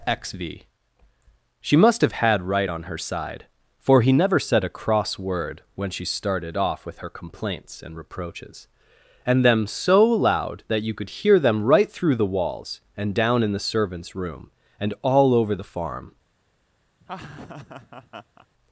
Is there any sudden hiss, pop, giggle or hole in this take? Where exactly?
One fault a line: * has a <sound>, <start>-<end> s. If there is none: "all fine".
* has a laugh, 17.0-18.5 s